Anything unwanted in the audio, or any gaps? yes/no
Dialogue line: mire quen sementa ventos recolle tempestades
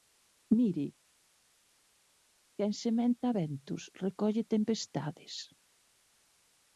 no